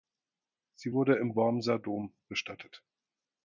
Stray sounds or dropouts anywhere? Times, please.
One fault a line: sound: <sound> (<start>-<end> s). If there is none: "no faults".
no faults